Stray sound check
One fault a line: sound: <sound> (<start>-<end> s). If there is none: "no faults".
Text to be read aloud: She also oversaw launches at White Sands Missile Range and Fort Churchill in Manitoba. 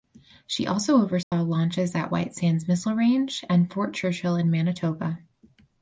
sound: dropout (1.2-1.3 s)